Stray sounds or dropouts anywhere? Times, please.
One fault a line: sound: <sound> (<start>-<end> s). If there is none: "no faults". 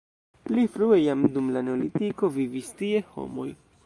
no faults